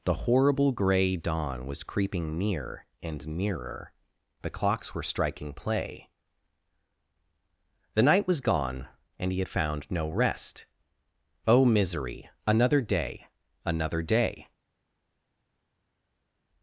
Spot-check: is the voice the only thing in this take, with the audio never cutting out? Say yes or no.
yes